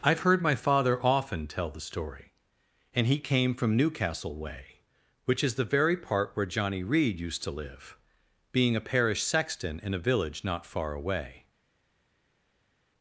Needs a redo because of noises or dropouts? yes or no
no